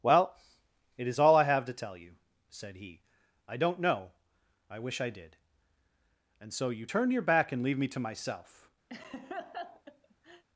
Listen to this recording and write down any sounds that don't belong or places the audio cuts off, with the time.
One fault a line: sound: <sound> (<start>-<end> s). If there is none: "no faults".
sound: laugh (8.9-10.4 s)